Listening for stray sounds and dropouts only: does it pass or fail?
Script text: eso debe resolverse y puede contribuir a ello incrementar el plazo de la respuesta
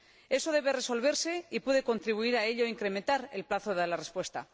pass